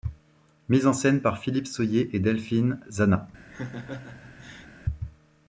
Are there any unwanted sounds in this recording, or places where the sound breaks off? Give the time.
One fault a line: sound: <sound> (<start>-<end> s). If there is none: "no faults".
sound: laugh (3.5-4.7 s)